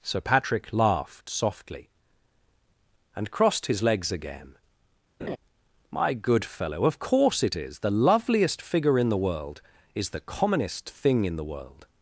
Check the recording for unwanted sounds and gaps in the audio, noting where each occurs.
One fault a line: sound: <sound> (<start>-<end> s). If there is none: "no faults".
sound: laugh (5.2-5.4 s)